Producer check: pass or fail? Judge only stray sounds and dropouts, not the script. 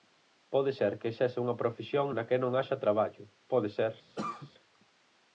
fail